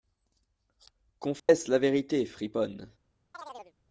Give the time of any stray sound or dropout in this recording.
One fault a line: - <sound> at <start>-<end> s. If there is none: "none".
- dropout at 1.4-1.5 s
- chirp at 3.3-3.7 s